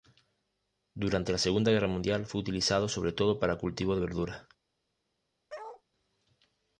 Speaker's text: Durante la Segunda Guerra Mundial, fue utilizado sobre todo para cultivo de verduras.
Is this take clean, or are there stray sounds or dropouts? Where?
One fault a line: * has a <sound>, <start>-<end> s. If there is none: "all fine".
* has a bark, 5.5-5.8 s